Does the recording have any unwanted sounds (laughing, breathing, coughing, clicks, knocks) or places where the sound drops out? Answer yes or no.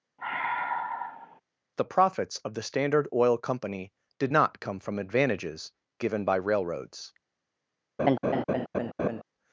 yes